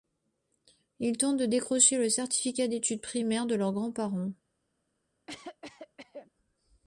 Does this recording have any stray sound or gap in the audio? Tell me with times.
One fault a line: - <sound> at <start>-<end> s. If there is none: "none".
- cough at 5.3-6.3 s